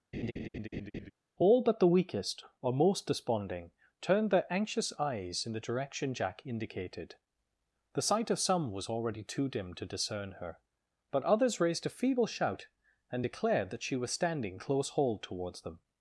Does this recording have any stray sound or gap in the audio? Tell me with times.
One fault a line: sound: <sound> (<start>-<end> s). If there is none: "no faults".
sound: laugh (0.1-1.1 s)